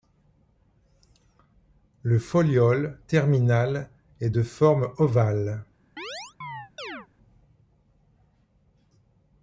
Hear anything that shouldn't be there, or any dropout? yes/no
yes